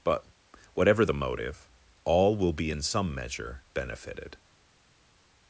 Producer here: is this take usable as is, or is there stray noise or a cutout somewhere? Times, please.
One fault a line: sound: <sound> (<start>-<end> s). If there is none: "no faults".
no faults